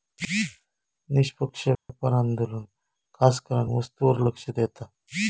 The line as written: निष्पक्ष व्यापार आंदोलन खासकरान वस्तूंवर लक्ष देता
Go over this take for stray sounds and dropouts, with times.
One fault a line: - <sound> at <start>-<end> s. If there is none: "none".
- dropout at 1.7-1.9 s